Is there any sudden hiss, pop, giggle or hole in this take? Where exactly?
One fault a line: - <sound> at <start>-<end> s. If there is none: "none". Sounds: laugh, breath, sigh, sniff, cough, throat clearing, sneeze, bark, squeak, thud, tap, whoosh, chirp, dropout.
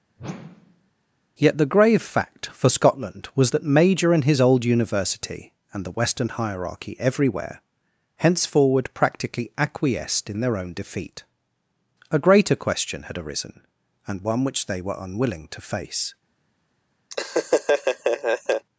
- whoosh at 0.2-0.9 s
- laugh at 17.1-18.7 s